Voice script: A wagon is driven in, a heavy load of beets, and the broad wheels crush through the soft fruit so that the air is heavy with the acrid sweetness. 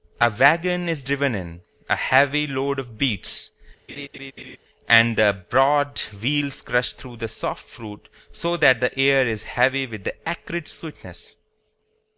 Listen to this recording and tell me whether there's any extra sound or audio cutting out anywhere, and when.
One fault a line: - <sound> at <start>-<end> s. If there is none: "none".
- laugh at 3.9-4.6 s